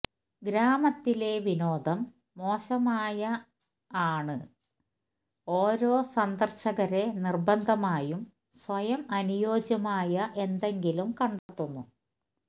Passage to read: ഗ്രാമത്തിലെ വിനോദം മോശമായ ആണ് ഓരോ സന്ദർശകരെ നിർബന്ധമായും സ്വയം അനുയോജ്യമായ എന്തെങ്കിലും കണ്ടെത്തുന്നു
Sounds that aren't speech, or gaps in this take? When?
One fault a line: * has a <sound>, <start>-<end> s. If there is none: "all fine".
* has a dropout, 11.4-11.5 s